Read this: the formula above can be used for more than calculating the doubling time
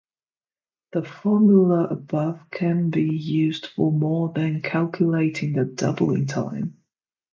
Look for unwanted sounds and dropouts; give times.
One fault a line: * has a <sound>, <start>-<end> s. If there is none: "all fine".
all fine